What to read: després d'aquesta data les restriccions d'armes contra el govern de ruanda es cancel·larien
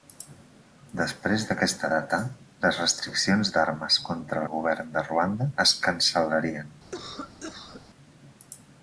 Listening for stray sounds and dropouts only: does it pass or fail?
fail